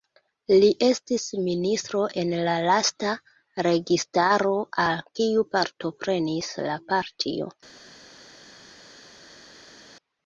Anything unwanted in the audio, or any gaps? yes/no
no